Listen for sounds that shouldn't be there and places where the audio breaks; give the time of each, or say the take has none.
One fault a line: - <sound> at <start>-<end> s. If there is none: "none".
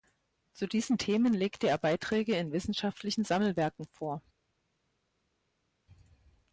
none